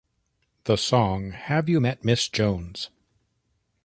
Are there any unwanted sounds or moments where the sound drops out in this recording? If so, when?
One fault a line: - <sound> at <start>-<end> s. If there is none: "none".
none